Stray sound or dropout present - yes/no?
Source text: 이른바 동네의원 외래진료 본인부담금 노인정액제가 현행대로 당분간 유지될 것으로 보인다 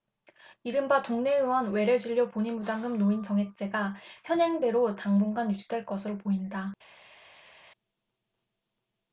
no